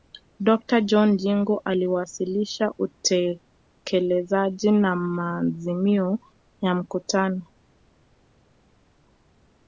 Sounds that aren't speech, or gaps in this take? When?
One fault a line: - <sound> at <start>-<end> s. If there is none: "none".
none